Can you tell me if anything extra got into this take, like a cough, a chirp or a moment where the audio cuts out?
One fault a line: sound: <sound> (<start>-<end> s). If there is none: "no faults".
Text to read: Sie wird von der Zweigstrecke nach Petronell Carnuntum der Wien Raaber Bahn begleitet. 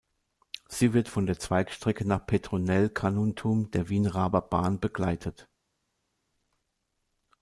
no faults